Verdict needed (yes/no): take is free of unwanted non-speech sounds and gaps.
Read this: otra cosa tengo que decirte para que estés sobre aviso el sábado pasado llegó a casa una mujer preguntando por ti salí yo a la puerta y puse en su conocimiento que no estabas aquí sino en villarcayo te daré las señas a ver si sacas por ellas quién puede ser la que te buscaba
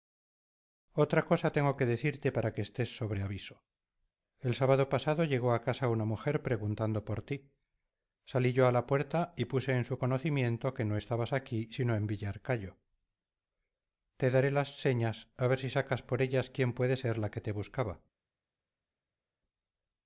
yes